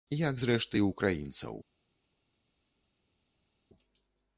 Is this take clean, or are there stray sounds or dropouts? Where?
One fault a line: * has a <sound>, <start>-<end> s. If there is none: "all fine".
all fine